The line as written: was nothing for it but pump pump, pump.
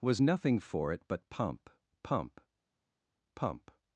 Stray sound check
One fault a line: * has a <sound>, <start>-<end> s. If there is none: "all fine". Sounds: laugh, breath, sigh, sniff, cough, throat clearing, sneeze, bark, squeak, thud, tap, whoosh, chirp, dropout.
all fine